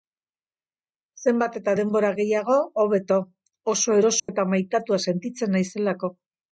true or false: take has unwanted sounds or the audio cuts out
true